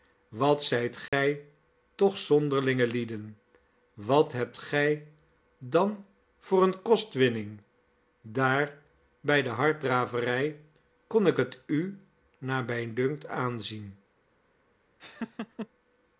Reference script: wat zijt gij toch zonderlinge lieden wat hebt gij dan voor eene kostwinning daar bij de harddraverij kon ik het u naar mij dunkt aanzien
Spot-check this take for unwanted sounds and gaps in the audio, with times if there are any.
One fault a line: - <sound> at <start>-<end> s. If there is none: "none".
- dropout at 1.1-1.1 s
- laugh at 15.0-15.7 s